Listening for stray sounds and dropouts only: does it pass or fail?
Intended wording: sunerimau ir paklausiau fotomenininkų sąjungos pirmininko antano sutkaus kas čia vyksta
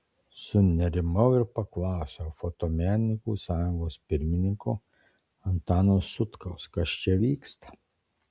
pass